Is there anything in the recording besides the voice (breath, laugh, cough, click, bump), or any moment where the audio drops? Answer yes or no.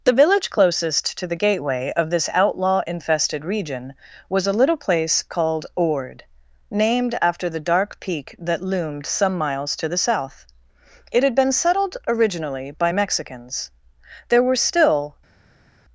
no